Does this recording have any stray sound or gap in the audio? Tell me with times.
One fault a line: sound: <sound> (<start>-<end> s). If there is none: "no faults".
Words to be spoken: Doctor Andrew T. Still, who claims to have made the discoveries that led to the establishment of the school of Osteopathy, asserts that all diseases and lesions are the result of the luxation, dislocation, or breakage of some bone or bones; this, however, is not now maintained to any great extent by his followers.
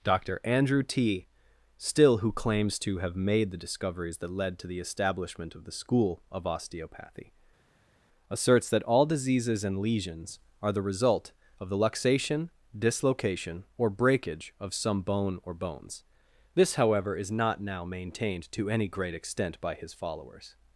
no faults